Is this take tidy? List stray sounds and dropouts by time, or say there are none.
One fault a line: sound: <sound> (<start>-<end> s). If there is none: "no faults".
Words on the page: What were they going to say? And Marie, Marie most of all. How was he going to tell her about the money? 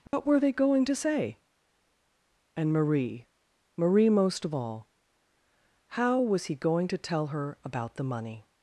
sound: dropout (0.1-0.1 s)